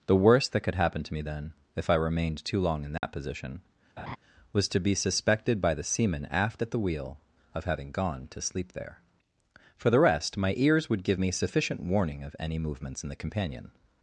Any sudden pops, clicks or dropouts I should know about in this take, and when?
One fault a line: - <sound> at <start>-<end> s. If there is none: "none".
- dropout at 3.0-3.0 s
- laugh at 4.0-4.2 s